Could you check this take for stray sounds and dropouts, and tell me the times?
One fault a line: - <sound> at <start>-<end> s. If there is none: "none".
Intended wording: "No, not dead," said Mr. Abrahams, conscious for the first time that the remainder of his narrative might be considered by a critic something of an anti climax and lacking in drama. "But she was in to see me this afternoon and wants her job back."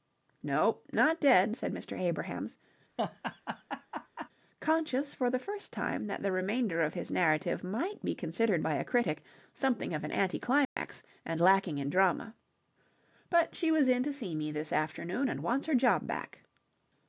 - laugh at 3.0-4.3 s
- dropout at 10.6-10.8 s